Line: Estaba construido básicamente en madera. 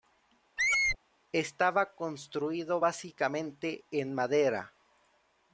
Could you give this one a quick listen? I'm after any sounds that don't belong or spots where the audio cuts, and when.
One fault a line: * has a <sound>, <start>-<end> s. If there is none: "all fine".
* has a squeak, 0.6-1.0 s